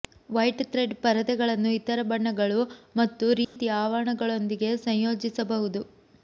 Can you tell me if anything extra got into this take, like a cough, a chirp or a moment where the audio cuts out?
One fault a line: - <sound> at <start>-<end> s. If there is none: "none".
- dropout at 3.4-3.6 s